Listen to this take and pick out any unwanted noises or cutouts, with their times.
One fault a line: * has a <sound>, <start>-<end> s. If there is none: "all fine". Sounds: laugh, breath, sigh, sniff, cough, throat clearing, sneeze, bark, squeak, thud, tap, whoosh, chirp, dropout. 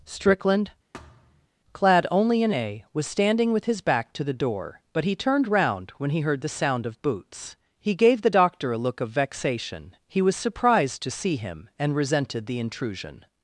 * has a thud, 0.9-1.5 s